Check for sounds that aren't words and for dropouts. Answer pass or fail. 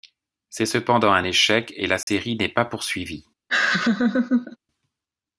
fail